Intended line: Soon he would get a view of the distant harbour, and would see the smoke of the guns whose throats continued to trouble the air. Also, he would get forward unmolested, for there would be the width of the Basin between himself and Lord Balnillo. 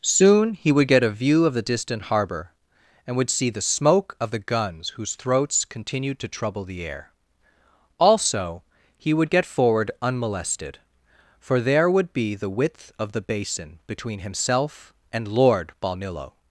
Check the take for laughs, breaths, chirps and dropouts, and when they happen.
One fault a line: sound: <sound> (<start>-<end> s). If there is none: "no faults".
no faults